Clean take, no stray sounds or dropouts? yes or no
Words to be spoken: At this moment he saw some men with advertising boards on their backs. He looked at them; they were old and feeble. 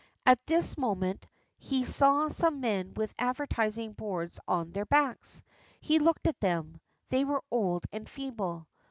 yes